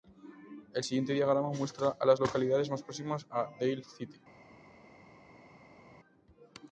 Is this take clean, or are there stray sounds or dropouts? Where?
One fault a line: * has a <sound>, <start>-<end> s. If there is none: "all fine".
all fine